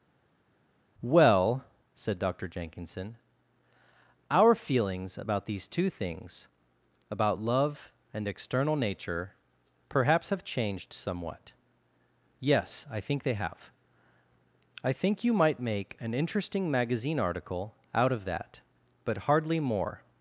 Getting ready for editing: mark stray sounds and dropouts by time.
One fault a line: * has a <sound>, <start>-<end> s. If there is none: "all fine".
all fine